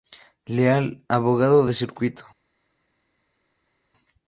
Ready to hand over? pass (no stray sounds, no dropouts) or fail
pass